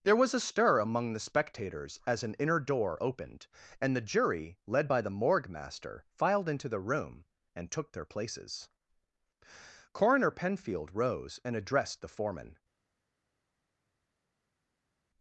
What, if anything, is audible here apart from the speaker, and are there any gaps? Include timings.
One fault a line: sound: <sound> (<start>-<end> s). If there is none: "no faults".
no faults